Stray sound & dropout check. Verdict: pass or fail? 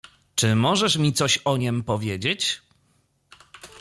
pass